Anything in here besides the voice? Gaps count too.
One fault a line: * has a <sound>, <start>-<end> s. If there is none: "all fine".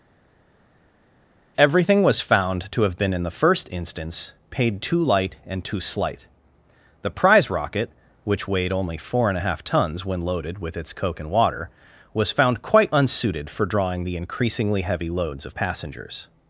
all fine